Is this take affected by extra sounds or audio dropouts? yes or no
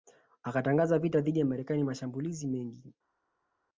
no